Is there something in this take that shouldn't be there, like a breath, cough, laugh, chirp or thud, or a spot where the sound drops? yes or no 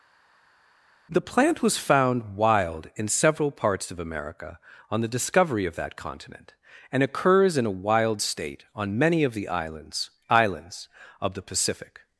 no